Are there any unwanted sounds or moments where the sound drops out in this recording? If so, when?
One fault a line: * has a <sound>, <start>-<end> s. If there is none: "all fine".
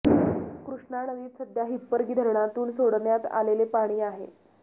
all fine